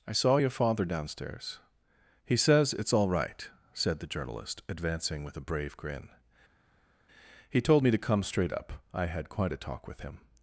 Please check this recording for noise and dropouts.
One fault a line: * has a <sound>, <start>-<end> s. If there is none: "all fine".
all fine